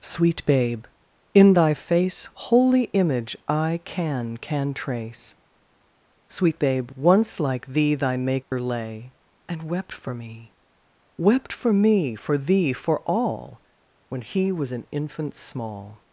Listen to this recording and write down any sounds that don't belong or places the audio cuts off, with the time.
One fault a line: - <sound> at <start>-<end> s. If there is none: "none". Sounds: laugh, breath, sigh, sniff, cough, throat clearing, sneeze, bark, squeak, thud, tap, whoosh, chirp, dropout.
- dropout at 8.4-8.5 s